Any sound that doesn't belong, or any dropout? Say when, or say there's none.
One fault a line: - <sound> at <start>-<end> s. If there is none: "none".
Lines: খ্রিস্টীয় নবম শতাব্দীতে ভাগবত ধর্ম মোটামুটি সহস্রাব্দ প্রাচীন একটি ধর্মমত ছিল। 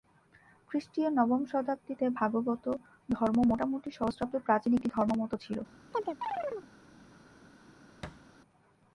- chirp at 5.9-6.7 s
- thud at 8.0-8.3 s